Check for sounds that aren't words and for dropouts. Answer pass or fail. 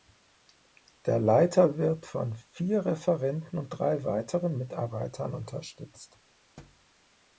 fail